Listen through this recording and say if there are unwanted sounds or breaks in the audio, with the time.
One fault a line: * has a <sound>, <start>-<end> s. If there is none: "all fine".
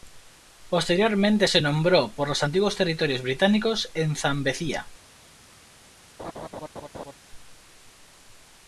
* has a laugh, 6.2-7.1 s